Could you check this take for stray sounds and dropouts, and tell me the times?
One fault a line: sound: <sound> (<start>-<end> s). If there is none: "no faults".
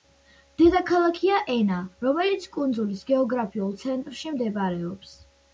no faults